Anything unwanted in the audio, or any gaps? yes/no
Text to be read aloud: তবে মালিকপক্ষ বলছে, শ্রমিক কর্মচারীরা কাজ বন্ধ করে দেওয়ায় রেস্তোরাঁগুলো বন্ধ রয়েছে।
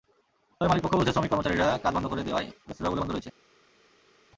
no